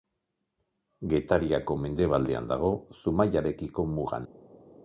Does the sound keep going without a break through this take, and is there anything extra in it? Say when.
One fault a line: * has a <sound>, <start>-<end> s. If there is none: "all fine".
all fine